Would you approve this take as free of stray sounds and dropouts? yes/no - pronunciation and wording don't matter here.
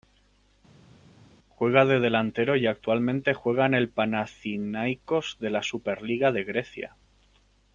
yes